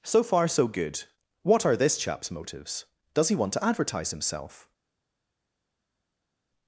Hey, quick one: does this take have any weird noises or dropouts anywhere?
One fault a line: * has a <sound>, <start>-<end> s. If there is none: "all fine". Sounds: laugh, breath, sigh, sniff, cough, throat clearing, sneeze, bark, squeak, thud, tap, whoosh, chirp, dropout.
all fine